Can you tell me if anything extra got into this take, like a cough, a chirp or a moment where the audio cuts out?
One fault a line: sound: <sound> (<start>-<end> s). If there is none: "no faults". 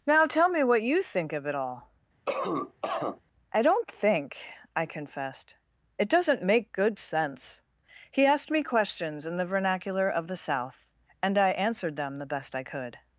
sound: cough (2.3-3.2 s)